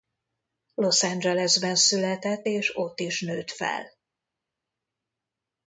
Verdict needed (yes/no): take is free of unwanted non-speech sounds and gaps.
yes